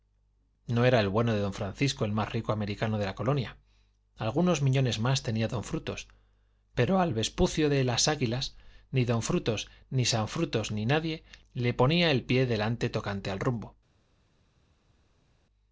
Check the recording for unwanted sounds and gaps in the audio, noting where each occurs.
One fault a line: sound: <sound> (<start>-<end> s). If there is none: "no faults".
no faults